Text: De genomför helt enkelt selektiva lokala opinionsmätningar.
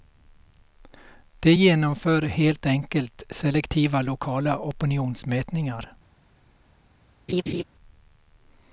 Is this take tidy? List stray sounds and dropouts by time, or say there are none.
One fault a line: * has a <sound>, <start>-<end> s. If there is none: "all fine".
* has a laugh, 7.3-7.6 s